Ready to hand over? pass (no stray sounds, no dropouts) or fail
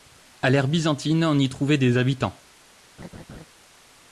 fail